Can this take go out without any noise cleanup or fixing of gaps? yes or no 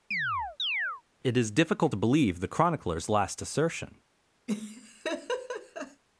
no